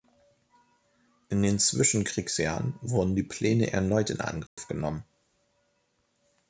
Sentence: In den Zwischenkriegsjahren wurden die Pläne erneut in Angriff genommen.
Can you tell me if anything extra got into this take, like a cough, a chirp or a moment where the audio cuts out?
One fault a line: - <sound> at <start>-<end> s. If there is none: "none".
- dropout at 4.5-4.6 s